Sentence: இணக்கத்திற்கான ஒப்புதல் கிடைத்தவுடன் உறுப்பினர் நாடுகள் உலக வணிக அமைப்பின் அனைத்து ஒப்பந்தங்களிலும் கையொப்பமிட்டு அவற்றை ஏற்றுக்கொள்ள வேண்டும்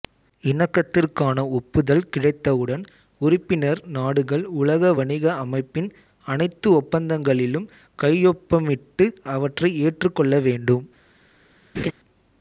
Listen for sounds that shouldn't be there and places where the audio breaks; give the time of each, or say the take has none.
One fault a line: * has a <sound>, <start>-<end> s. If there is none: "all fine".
* has a laugh, 11.7-11.9 s